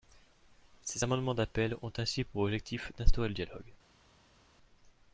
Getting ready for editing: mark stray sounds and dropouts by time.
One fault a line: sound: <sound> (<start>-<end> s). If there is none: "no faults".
no faults